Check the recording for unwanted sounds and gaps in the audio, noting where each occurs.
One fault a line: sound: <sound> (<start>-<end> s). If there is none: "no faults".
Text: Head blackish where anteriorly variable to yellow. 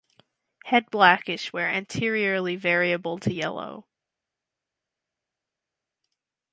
no faults